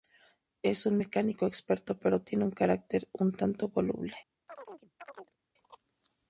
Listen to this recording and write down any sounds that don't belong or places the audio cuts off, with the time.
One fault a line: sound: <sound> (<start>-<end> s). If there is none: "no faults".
sound: chirp (4.5-5.4 s)